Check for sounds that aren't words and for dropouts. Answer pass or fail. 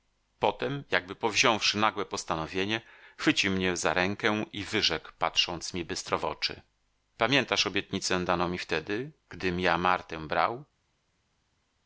pass